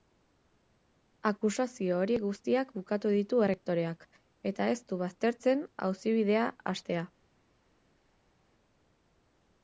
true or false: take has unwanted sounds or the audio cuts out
false